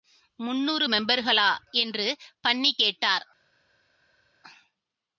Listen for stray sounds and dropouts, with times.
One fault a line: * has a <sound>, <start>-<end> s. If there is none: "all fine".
all fine